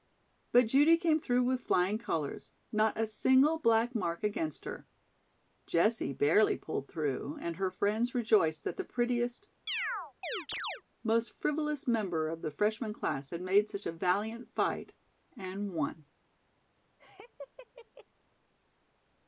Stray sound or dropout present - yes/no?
yes